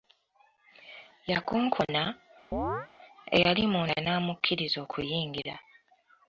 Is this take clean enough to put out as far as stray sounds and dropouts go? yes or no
no